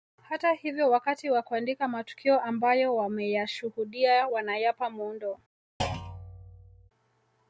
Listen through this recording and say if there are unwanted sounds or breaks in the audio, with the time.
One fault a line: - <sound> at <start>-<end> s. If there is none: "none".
- thud at 5.8-6.9 s